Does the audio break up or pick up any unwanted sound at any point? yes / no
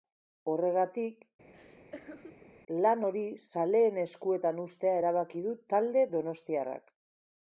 yes